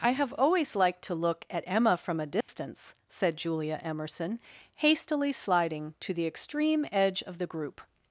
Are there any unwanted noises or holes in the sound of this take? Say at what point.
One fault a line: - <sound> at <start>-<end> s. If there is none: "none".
- dropout at 2.4-2.5 s